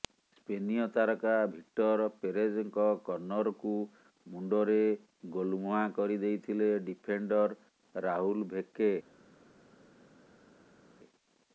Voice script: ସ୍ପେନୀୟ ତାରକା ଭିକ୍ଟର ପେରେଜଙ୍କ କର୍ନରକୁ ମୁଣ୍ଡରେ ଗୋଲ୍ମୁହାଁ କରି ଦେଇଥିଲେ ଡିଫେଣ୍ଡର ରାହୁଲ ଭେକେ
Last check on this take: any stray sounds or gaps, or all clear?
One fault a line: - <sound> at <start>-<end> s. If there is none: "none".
none